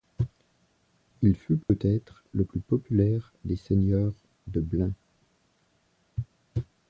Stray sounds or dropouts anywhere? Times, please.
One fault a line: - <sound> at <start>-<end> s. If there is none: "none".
- dropout at 1.6-1.7 s